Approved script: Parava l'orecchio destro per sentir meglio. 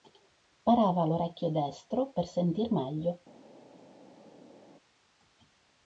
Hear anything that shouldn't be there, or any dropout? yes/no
no